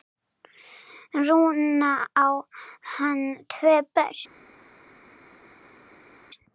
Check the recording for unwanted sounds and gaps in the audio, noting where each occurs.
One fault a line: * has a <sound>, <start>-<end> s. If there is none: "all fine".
all fine